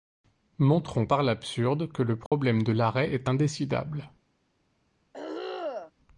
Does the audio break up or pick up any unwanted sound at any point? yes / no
yes